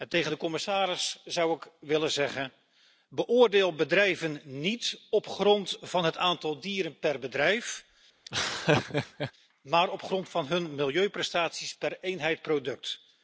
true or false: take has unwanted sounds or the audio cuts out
true